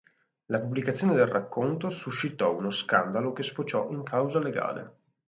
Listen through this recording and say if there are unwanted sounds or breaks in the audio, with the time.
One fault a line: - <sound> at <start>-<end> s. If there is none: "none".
none